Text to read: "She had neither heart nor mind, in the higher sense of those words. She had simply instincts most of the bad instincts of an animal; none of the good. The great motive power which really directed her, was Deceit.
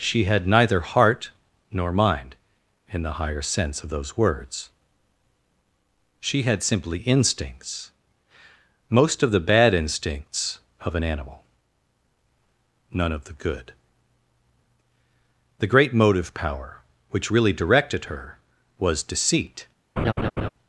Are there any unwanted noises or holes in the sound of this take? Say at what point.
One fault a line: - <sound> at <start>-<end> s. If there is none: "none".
- laugh at 20.0-20.5 s